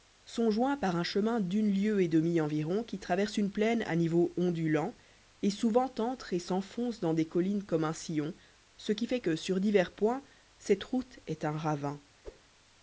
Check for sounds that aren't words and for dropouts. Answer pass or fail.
fail